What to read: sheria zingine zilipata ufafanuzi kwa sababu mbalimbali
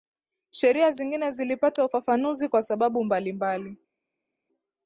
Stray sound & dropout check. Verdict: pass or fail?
pass